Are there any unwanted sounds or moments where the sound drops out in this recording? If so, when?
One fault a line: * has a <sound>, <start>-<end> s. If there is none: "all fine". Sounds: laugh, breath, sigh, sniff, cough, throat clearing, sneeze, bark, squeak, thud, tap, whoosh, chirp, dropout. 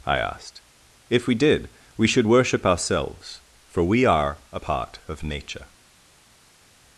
all fine